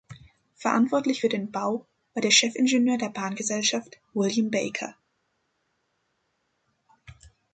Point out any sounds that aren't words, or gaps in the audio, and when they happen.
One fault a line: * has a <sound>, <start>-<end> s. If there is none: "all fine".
all fine